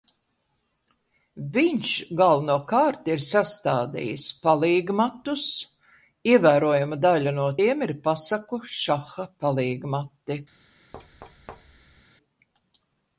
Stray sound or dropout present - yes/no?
yes